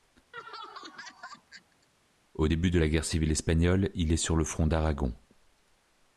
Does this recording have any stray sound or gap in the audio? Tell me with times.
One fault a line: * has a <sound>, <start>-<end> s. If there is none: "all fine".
* has a laugh, 0.3-1.9 s